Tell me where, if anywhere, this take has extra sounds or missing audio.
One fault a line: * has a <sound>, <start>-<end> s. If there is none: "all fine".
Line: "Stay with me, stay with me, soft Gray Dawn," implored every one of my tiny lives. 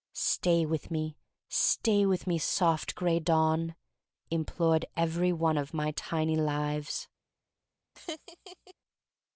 * has a laugh, 8.0-8.7 s